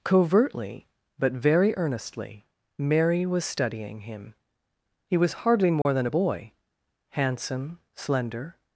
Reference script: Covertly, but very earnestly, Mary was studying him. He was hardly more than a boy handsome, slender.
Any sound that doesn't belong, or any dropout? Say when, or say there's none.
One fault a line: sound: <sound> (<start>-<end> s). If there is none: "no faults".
sound: dropout (5.8-5.9 s)